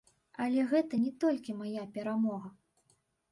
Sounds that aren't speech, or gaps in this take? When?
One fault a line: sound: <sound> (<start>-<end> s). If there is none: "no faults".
no faults